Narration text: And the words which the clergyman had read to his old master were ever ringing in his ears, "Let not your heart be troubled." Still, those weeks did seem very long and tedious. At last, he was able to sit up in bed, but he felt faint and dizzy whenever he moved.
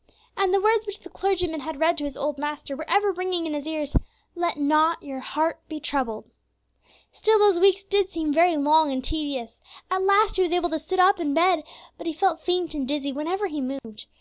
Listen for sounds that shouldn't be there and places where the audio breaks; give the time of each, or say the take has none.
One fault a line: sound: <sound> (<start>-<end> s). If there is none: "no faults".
sound: dropout (13.8-13.8 s)